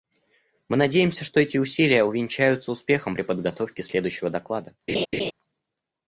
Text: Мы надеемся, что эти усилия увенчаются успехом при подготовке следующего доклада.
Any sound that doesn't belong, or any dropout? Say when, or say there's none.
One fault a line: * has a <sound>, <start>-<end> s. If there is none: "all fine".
* has a laugh, 4.9-5.3 s